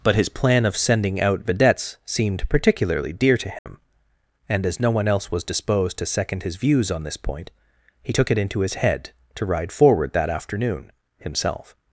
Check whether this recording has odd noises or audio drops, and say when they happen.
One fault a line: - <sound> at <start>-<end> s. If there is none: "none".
- dropout at 3.6-3.7 s